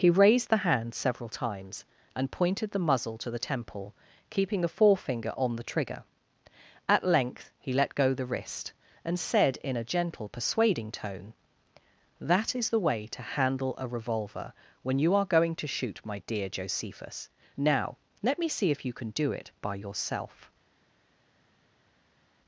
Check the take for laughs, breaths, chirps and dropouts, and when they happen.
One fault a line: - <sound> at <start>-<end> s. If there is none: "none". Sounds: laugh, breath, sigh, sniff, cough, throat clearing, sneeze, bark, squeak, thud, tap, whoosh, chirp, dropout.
none